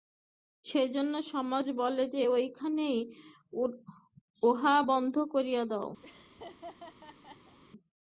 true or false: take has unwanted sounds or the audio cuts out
true